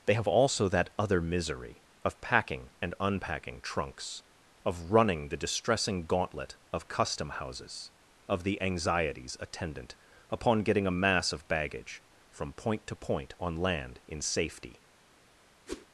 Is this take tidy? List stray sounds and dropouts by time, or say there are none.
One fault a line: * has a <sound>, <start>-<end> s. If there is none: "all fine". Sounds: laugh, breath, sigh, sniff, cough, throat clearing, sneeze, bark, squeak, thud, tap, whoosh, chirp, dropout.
* has a whoosh, 15.7-15.9 s